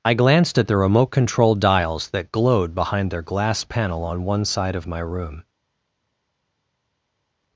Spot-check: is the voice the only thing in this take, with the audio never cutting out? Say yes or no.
yes